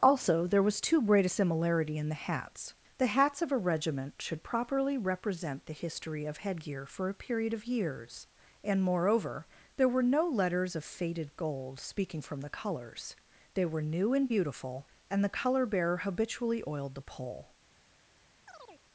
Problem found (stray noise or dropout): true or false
true